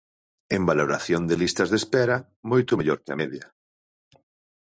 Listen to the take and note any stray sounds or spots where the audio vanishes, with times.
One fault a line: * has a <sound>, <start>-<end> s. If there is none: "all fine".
all fine